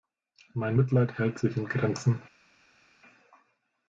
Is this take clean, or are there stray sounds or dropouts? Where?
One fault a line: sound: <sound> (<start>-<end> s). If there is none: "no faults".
no faults